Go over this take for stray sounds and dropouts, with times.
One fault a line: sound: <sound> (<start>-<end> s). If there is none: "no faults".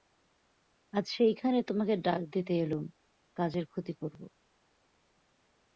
no faults